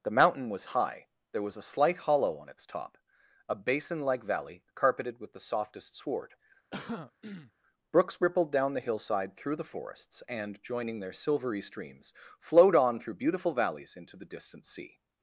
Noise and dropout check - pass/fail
fail